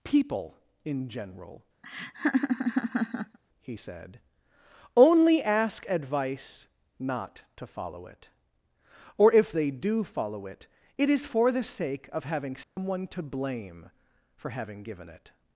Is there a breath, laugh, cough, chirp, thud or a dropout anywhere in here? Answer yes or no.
yes